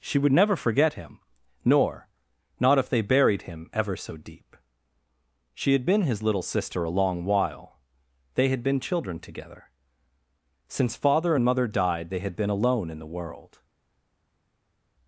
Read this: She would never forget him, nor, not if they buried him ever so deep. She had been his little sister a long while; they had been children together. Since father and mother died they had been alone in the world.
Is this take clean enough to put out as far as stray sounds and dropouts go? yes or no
yes